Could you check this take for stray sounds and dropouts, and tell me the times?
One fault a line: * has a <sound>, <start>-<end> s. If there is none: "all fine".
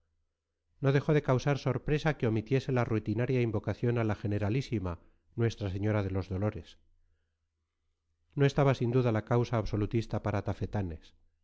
all fine